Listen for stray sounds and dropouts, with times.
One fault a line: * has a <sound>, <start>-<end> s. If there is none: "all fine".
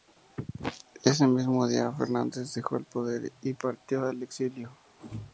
all fine